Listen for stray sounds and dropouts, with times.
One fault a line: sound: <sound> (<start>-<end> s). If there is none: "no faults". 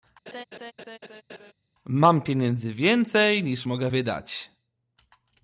sound: laugh (0.3-1.5 s)